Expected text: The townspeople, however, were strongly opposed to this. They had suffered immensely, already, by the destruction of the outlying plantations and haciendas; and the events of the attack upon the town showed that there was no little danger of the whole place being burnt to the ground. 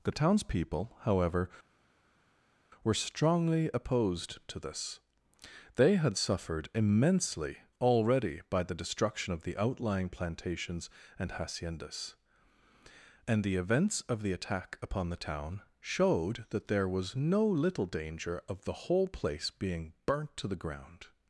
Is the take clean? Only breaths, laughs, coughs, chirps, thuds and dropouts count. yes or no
yes